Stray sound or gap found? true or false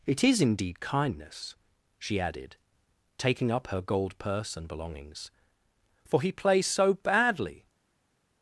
false